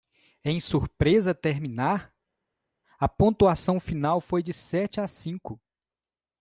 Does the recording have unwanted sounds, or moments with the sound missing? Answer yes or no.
no